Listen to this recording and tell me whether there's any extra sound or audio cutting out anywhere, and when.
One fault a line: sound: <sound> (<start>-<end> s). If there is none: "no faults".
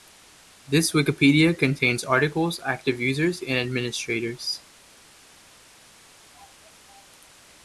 no faults